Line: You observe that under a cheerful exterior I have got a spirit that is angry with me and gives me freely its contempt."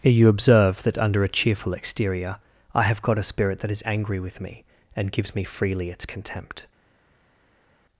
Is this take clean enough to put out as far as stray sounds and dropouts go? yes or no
yes